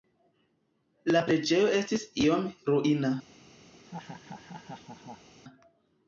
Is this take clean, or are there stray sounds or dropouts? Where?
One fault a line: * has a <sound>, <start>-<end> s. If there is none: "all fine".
* has a laugh, 3.7-5.3 s